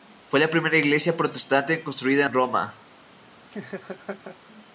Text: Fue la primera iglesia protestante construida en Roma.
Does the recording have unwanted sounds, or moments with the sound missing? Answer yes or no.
yes